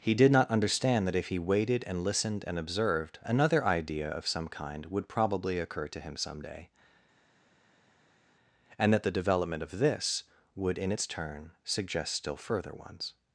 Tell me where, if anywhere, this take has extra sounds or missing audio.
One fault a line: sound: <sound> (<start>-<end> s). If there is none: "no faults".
no faults